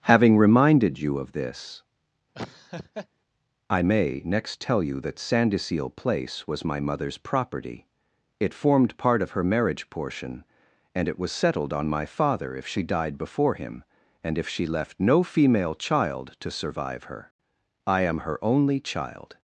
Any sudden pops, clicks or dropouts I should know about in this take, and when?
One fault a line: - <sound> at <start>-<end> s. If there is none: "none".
- laugh at 2.3-3.1 s